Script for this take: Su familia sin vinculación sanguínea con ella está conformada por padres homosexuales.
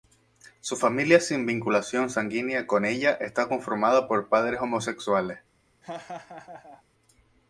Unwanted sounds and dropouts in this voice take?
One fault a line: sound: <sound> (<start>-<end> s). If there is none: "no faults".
sound: laugh (5.8-6.8 s)